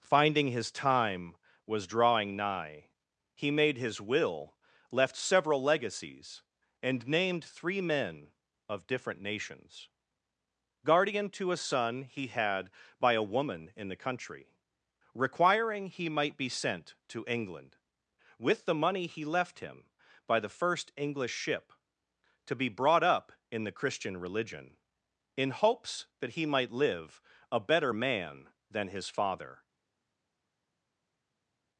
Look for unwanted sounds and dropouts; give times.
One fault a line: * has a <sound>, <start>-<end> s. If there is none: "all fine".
all fine